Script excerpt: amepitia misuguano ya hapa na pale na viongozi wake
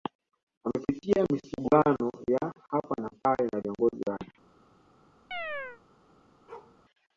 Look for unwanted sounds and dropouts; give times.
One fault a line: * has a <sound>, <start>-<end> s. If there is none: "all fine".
* has a chirp, 5.3-5.8 s
* has a bark, 6.5-6.8 s